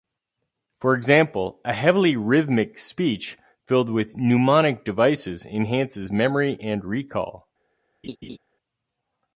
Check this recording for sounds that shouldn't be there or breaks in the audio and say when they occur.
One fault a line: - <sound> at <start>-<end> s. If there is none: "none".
- laugh at 8.0-8.4 s